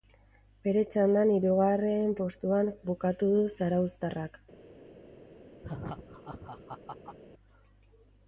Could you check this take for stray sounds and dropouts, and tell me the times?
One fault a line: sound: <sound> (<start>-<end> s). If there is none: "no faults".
sound: laugh (5.6-7.2 s)